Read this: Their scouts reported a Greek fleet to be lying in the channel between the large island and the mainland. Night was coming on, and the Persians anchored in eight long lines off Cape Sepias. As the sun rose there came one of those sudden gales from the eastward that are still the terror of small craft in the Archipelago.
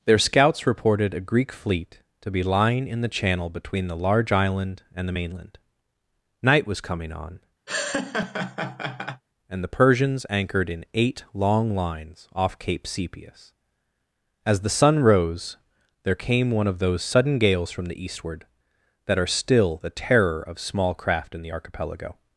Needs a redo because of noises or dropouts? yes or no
yes